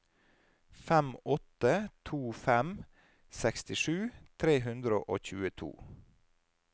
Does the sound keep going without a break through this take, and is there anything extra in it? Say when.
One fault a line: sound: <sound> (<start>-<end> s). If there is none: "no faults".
no faults